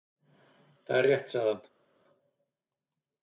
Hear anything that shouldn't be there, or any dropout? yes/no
no